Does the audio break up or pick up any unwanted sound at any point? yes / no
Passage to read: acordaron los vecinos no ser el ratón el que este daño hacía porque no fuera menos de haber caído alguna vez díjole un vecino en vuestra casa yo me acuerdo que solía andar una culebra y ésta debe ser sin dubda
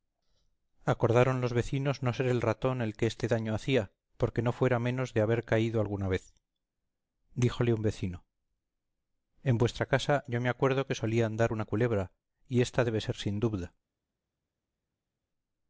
no